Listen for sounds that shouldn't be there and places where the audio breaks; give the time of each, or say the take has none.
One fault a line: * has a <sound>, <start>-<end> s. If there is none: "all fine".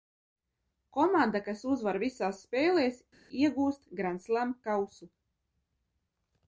all fine